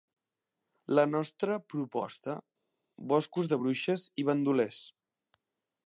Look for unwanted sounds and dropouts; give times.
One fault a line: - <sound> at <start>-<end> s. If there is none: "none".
none